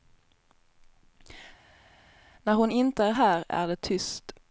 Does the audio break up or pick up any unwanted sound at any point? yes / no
no